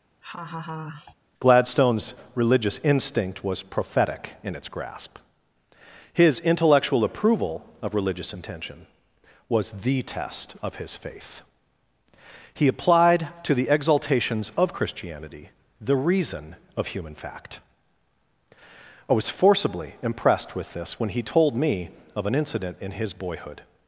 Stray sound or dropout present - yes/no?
yes